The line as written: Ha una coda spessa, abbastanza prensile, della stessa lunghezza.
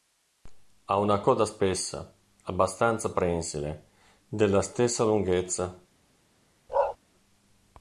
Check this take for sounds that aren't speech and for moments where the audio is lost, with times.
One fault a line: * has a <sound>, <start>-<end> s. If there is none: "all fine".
* has a bark, 6.7-7.0 s